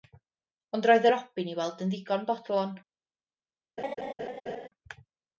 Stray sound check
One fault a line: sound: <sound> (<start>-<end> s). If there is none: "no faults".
sound: laugh (3.8-4.7 s)